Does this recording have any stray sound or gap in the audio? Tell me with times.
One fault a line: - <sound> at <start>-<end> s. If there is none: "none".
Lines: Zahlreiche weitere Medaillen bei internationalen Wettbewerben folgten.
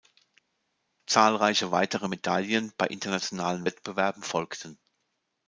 none